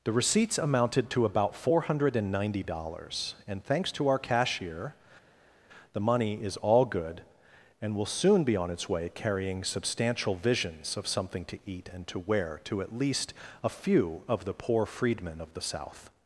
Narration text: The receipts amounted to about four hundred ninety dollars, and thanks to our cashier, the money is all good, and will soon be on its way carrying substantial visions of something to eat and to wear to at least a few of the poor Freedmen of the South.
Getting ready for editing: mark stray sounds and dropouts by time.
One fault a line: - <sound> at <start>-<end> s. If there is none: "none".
none